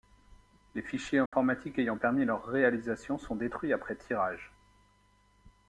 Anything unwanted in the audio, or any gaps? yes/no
yes